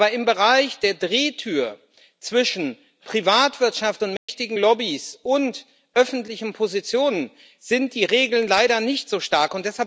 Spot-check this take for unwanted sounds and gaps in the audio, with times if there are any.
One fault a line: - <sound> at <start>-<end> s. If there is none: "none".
- dropout at 4.2-4.3 s